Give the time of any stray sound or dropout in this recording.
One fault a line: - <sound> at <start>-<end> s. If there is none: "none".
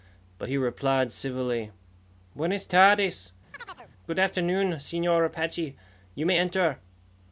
- chirp at 3.5-3.9 s